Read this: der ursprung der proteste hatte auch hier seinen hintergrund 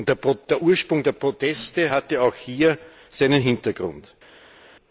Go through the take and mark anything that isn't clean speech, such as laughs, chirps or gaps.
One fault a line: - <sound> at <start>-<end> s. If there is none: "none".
none